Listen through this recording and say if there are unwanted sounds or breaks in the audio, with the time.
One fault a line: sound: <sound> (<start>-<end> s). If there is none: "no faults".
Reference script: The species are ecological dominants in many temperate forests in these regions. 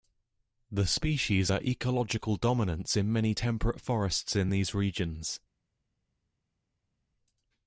no faults